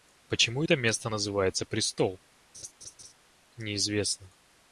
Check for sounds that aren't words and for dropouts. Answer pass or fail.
fail